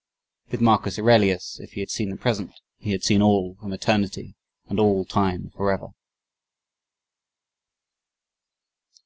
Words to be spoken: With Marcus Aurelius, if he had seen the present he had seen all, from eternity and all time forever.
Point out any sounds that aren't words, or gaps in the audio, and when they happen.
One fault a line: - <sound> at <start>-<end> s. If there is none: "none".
none